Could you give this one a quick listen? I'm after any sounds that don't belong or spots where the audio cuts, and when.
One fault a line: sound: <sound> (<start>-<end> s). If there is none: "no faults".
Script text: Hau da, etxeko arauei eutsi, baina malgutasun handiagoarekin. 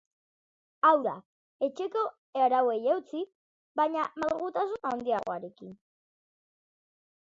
no faults